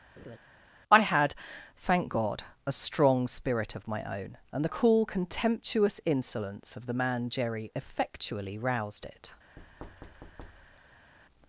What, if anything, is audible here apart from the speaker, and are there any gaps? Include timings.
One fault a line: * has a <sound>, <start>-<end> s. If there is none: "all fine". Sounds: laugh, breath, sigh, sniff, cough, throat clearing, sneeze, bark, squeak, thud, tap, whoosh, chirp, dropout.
* has a laugh, 0.2-0.4 s
* has a thud, 9.6-11.1 s